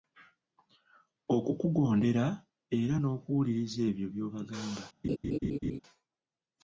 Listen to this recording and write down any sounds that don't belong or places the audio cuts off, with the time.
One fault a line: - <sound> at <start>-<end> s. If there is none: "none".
- laugh at 5.0-5.8 s